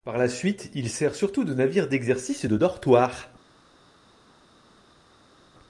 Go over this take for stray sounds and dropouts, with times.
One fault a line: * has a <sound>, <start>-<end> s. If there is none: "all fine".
all fine